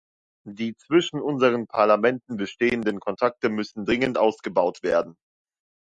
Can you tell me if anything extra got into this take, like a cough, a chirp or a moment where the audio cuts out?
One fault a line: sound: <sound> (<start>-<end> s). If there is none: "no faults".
no faults